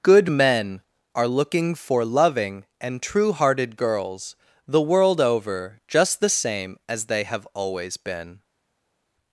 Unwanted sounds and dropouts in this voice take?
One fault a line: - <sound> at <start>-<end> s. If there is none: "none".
none